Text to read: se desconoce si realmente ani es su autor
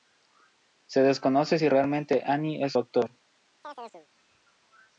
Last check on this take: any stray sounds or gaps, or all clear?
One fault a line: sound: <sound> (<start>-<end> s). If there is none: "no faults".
sound: chirp (3.6-4.1 s)